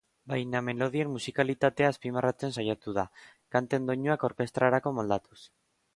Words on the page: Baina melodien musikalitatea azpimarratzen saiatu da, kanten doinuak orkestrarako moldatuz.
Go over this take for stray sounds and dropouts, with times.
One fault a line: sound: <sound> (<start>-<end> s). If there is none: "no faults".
no faults